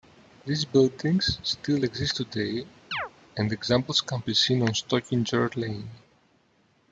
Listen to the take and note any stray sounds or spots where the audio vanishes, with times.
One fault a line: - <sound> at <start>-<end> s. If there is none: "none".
- chirp at 2.9-3.1 s